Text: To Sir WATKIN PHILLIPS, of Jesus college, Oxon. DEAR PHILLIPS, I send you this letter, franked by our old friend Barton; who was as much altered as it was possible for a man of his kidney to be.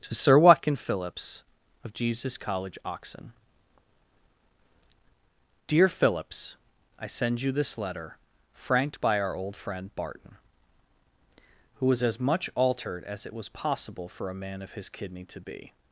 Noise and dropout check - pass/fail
pass